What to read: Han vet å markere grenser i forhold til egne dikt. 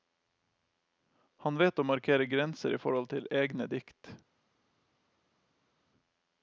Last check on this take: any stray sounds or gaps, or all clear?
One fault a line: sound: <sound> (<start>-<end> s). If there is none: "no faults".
no faults